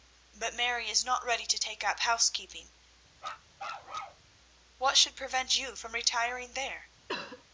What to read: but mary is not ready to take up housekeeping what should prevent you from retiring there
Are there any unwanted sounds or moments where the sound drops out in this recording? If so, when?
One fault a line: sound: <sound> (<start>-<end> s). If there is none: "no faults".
sound: bark (3.2-4.3 s)
sound: cough (7.1-7.4 s)